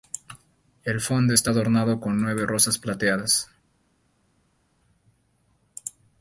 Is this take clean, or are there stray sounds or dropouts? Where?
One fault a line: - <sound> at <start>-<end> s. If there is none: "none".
none